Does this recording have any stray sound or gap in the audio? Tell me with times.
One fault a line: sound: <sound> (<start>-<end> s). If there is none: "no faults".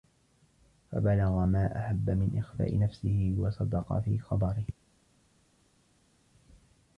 no faults